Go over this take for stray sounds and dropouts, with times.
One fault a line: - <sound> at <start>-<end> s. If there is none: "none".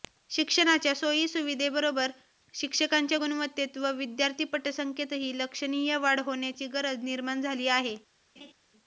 - laugh at 8.4-8.5 s